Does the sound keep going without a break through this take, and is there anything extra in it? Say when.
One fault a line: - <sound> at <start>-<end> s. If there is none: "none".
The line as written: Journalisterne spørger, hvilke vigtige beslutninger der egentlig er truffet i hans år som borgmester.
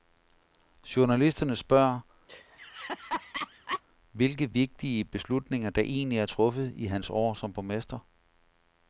- laugh at 2.3-3.8 s